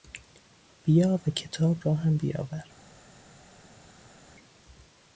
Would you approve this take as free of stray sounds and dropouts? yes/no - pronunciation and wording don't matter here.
yes